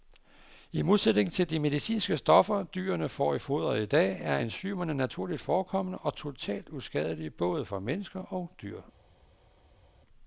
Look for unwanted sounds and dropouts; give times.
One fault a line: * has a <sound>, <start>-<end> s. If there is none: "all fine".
all fine